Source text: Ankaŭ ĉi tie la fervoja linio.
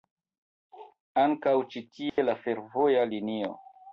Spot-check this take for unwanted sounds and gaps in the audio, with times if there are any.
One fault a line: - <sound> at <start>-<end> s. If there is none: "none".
- dropout at 2.1-2.2 s